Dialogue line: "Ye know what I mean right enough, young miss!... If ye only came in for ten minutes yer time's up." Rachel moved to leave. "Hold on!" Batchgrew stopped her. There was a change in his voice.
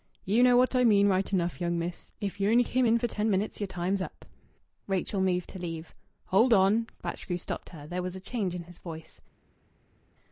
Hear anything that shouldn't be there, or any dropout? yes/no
no